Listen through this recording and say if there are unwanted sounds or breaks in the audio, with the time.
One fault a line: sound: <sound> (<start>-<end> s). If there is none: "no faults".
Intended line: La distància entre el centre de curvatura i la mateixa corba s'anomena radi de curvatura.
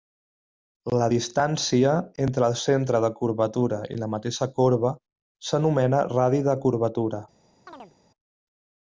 sound: chirp (7.7-7.9 s)